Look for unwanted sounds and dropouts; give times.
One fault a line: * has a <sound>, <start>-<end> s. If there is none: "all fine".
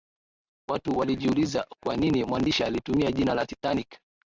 all fine